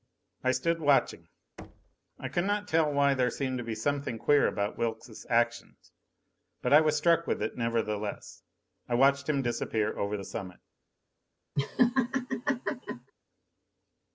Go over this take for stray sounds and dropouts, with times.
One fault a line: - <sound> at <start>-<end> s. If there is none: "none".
- thud at 1.6-2.0 s
- laugh at 11.6-13.1 s